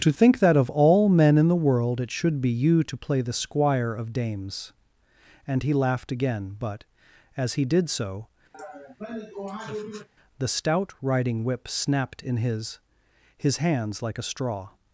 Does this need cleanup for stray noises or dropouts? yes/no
yes